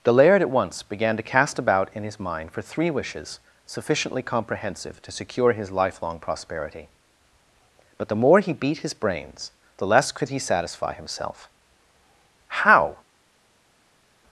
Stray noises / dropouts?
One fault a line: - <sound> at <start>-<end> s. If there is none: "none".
none